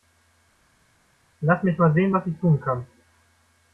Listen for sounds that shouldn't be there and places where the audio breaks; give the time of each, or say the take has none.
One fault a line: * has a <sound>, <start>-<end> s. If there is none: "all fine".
all fine